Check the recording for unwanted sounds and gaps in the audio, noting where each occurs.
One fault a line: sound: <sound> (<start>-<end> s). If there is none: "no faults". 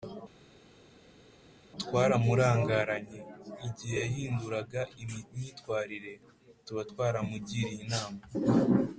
no faults